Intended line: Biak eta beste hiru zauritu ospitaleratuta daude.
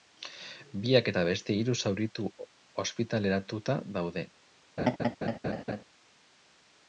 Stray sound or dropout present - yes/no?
yes